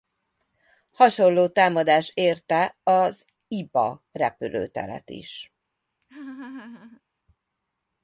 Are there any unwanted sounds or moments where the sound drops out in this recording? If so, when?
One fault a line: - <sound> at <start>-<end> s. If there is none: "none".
- laugh at 6.0-7.0 s